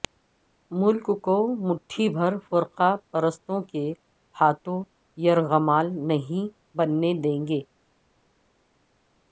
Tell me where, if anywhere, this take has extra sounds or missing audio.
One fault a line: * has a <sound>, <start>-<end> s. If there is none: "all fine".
all fine